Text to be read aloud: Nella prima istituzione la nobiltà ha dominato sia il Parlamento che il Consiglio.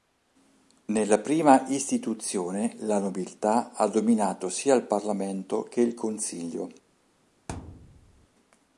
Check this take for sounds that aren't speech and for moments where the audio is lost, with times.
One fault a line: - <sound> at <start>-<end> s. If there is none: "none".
- thud at 7.5-8.3 s